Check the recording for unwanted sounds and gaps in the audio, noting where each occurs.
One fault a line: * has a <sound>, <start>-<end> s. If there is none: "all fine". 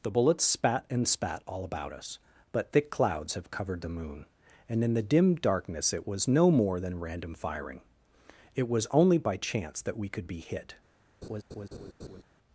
* has a laugh, 11.2-12.2 s